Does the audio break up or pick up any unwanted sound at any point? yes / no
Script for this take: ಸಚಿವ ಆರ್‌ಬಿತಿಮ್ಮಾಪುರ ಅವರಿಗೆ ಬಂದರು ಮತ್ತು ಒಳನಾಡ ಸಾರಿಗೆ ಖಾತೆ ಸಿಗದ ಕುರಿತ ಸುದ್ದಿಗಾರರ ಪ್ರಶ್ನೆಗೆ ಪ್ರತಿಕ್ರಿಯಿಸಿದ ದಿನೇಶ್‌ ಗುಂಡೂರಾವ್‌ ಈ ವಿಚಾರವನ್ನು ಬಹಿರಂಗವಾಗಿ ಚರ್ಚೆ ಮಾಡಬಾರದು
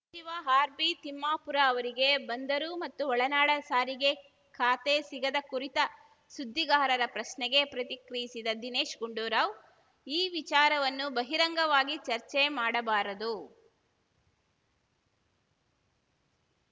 no